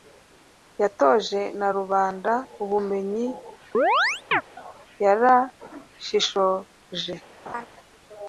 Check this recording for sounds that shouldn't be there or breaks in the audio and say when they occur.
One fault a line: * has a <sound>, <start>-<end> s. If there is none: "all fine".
* has a chirp, 3.7-4.4 s
* has a laugh, 7.4-7.7 s